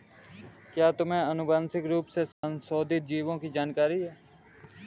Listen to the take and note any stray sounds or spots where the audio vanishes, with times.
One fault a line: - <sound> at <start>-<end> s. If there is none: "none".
- dropout at 2.3-2.4 s